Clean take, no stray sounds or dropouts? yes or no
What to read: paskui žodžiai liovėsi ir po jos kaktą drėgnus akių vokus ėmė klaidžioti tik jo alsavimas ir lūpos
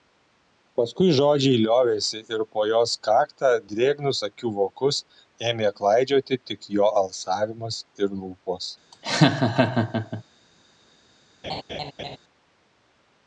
no